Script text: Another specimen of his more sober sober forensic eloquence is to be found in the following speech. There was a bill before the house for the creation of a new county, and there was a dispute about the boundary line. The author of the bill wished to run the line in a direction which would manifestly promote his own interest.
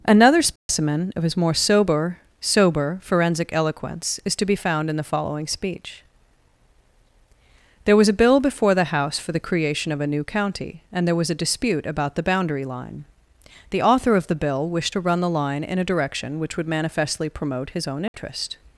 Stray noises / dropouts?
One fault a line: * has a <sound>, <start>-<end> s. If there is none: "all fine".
* has a dropout, 0.6-0.7 s
* has a dropout, 18.1-18.1 s